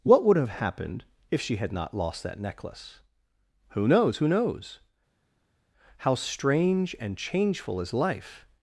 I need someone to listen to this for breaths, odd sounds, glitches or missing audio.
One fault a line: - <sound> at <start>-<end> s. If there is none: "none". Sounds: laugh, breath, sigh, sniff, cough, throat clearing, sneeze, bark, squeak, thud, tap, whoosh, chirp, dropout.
none